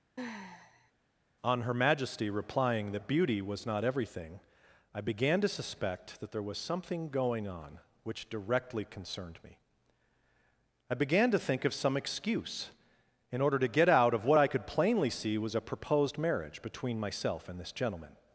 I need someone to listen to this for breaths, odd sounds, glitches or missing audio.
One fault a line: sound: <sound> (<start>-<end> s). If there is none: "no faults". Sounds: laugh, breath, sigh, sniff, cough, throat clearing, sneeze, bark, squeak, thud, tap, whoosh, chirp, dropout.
sound: sigh (0.2-0.9 s)